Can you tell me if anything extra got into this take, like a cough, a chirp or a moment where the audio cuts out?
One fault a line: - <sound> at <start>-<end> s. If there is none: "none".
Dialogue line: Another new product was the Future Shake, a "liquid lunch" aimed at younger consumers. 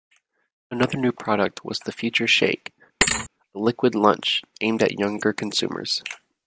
- thud at 3.0-3.3 s